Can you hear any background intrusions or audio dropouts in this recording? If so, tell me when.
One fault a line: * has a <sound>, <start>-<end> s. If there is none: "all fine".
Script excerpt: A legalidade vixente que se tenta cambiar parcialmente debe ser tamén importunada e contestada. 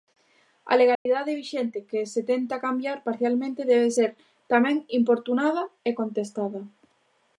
* has a dropout, 0.9-1.1 s